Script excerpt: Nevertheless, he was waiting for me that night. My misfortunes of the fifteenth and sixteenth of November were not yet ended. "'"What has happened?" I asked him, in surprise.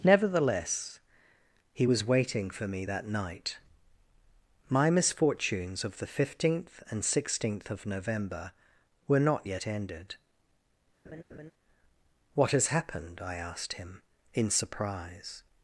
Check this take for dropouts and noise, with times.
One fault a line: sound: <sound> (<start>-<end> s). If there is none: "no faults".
sound: laugh (11.1-11.5 s)